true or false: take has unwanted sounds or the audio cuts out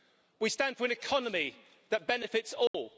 true